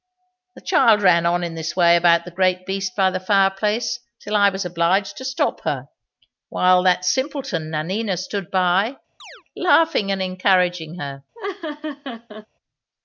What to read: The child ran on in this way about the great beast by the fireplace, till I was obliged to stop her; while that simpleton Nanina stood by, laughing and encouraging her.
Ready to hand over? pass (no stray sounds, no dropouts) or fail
fail